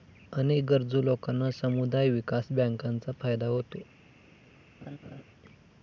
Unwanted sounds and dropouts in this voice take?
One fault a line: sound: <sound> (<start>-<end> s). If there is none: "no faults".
sound: laugh (4.8-5.2 s)